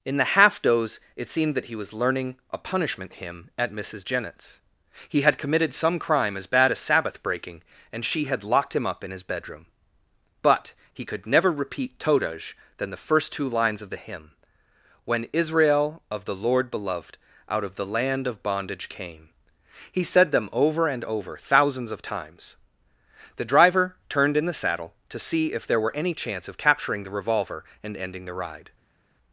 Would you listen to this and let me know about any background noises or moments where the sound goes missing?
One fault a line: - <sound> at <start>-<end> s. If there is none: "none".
none